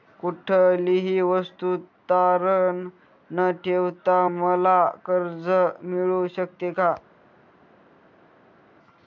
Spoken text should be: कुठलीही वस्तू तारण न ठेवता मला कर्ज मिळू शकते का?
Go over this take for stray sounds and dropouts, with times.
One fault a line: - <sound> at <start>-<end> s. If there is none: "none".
none